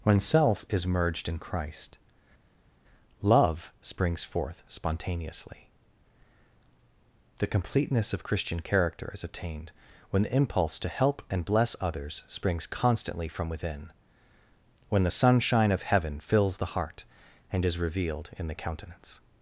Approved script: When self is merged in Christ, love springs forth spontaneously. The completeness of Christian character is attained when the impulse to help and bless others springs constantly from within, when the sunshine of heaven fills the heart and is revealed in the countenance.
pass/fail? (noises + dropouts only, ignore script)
pass